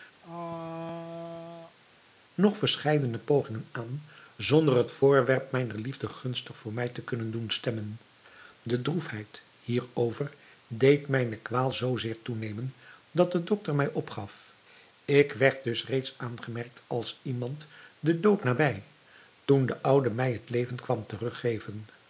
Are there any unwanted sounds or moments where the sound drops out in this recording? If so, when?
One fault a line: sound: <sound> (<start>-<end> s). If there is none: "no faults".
sound: throat clearing (0.2-1.8 s)